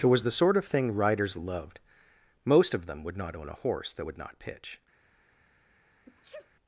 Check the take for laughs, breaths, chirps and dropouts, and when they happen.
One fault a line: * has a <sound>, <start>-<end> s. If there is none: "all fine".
* has a sneeze, 6.1-6.5 s